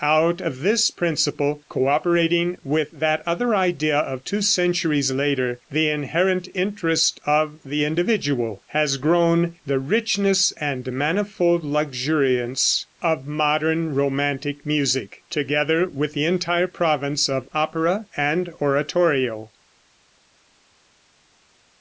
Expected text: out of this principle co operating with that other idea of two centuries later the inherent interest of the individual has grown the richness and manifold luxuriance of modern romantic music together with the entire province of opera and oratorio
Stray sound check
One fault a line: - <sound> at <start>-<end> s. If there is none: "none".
none